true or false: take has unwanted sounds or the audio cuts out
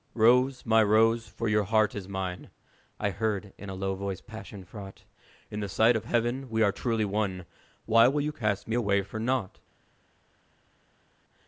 false